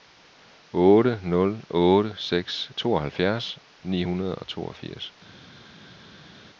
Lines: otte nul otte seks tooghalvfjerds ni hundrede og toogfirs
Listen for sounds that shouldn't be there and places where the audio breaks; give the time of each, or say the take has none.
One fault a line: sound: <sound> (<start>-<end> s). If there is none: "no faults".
no faults